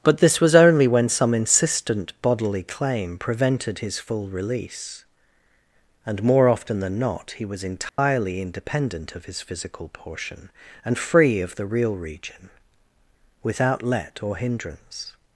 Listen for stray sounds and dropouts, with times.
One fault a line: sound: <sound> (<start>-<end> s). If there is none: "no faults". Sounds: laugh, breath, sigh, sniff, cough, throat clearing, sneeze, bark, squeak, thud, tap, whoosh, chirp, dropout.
sound: dropout (7.9-8.0 s)